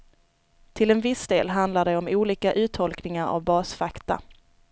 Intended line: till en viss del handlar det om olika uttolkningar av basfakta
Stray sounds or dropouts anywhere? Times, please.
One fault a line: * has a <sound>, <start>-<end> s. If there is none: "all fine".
all fine